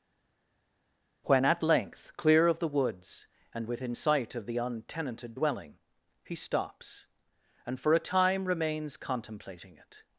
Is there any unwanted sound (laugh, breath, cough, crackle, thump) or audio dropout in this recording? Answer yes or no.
no